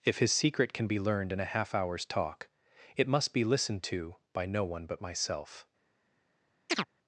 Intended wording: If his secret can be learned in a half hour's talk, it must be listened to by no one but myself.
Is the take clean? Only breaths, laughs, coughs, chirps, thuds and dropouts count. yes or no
no